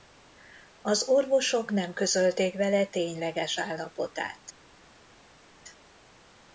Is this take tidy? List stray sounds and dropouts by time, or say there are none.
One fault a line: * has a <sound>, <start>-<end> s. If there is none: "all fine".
all fine